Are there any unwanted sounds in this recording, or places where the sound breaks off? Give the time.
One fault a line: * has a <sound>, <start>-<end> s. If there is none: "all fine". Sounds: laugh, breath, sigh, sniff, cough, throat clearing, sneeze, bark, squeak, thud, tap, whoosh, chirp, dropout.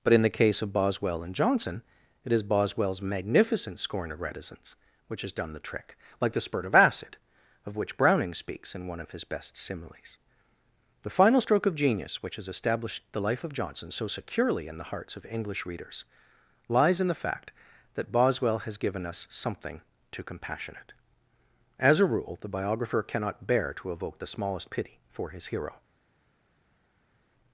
all fine